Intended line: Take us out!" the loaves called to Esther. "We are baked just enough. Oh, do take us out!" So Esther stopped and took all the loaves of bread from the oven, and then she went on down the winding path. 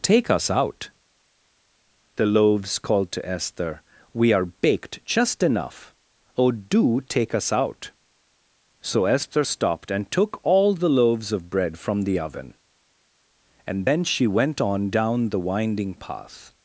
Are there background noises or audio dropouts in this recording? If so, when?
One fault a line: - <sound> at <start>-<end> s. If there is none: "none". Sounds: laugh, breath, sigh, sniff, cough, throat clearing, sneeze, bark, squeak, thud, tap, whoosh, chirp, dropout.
none